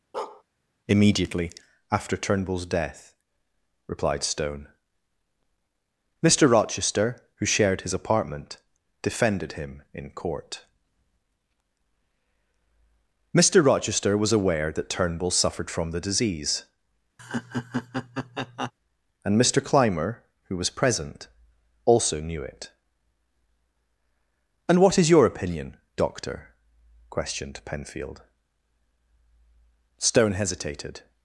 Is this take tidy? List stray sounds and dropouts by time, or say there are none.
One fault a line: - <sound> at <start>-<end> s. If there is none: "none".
- bark at 0.1-0.4 s
- laugh at 17.2-18.7 s